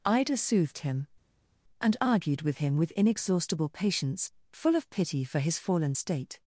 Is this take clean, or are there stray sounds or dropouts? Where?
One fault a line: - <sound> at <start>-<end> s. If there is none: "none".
none